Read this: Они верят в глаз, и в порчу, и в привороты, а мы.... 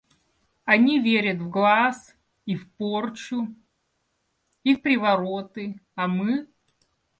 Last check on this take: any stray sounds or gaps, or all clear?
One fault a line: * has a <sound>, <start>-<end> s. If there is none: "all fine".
all fine